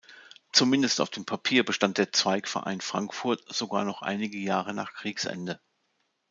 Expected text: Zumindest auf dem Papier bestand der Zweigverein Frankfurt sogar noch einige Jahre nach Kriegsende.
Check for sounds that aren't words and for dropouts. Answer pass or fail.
pass